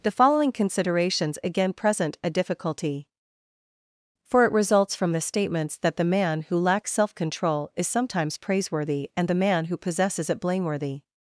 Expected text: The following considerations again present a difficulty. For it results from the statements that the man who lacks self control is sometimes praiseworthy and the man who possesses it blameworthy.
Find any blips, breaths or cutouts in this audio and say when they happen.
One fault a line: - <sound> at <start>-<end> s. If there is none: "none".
none